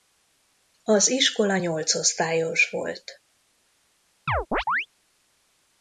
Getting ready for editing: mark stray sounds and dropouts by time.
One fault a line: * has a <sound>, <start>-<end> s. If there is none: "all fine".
* has a chirp, 4.3-4.9 s